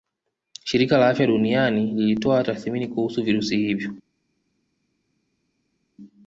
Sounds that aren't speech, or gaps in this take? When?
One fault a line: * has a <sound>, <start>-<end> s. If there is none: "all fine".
all fine